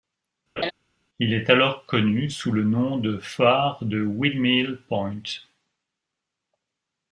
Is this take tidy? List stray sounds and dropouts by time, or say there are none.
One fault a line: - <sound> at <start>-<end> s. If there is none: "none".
- laugh at 0.6-0.7 s